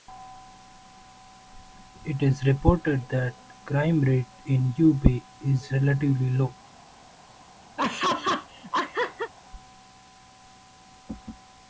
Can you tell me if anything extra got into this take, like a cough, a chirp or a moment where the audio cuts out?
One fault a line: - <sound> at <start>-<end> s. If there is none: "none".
- laugh at 7.8-9.3 s